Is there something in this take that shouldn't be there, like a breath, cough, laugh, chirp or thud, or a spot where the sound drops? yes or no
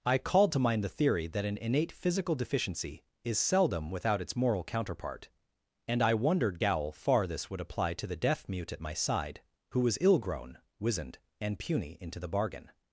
no